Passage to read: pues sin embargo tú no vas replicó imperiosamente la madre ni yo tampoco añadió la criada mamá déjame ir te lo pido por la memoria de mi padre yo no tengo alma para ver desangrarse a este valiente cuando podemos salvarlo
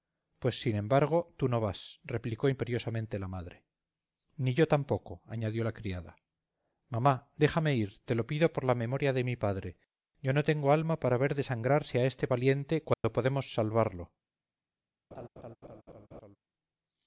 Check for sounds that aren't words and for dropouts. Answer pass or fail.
fail